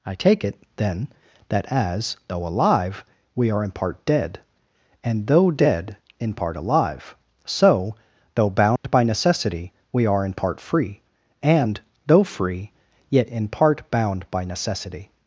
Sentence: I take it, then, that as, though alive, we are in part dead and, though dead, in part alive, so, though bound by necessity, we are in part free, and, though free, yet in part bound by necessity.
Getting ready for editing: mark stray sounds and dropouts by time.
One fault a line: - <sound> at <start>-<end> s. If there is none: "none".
- dropout at 8.8-8.8 s